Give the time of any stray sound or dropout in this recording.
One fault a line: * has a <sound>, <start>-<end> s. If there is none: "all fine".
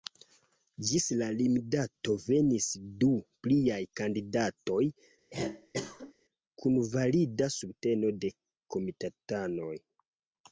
* has a cough, 5.3-6.1 s